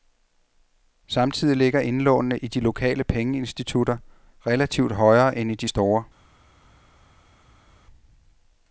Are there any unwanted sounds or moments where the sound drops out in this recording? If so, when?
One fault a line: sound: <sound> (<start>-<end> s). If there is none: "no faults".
no faults